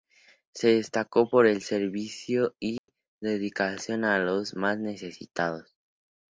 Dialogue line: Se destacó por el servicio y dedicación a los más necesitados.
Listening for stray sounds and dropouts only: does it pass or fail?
fail